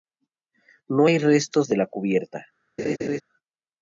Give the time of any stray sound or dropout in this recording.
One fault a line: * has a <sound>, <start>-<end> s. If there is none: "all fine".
* has a laugh, 2.8-3.2 s